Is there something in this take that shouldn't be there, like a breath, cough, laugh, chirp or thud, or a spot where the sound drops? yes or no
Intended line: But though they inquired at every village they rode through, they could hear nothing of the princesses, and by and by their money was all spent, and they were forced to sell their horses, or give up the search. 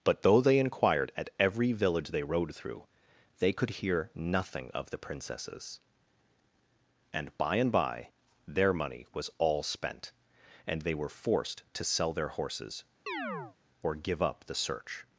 yes